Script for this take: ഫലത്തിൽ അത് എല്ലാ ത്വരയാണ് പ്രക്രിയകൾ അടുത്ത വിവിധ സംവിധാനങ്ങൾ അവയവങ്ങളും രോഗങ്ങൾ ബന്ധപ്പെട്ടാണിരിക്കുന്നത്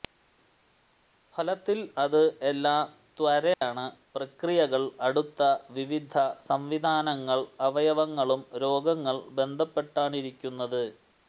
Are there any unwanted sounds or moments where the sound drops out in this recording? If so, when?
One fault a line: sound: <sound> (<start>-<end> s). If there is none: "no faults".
sound: dropout (3.5-3.6 s)